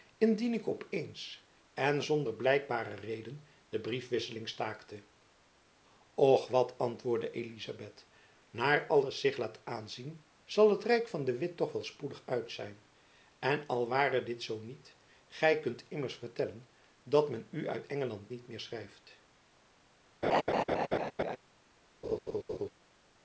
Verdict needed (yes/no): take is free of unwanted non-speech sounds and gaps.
no